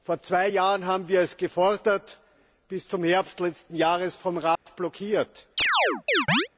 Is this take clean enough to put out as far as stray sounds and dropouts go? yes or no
no